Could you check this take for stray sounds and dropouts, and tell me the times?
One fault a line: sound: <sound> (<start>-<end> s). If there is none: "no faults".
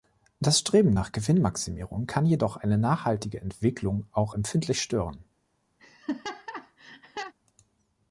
sound: laugh (5.8-7.3 s)